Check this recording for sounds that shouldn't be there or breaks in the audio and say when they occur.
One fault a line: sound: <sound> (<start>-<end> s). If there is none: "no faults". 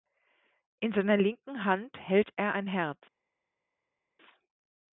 no faults